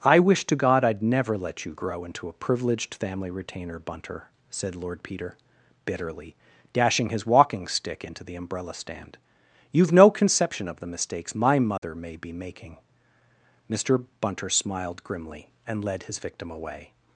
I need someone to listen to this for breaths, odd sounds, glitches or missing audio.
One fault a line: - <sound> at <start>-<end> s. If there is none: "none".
- dropout at 11.8-11.8 s